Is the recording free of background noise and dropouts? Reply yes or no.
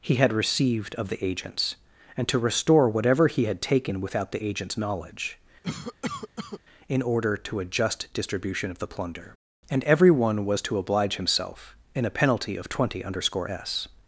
no